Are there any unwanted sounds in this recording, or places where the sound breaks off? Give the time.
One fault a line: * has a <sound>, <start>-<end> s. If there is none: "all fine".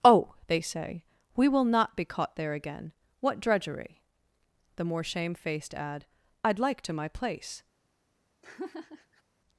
* has a laugh, 8.4-9.2 s